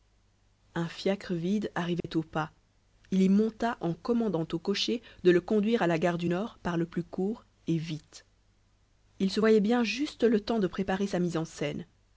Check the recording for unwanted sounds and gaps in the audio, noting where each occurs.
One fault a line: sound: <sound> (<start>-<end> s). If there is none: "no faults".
sound: dropout (2.0-2.0 s)